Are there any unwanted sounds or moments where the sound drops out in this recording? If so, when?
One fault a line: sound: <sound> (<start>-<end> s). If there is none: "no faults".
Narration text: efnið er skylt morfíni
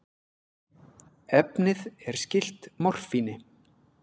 no faults